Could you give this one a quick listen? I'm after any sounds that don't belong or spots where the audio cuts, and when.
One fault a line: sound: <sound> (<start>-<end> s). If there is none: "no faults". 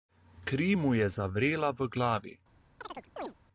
sound: chirp (2.8-3.3 s)